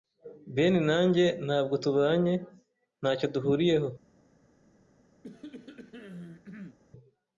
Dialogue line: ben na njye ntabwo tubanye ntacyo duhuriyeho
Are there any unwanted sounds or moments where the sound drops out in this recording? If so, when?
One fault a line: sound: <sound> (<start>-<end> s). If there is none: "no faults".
sound: cough (5.2-6.8 s)